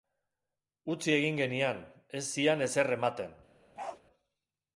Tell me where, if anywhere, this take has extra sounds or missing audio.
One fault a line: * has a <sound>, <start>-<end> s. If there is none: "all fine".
* has a bark, 3.8-4.0 s